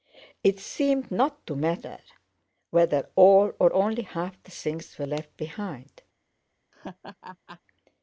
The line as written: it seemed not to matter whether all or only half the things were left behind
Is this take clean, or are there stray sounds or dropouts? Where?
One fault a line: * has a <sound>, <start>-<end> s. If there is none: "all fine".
* has a laugh, 6.7-7.6 s